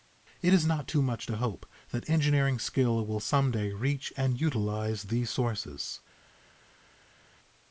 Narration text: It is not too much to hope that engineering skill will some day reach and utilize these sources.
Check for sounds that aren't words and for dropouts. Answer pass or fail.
pass